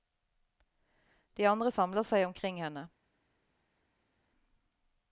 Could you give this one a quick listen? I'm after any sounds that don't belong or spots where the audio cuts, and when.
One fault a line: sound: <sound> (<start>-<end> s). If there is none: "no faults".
no faults